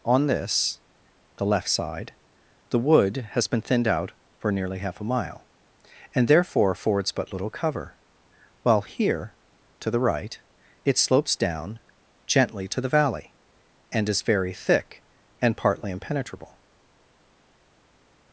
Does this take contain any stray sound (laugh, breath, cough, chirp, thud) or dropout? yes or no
no